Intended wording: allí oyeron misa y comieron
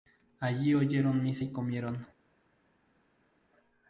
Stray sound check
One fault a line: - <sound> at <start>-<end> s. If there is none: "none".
none